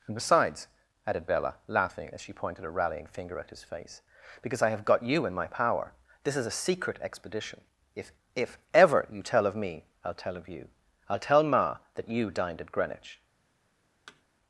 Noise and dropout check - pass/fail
fail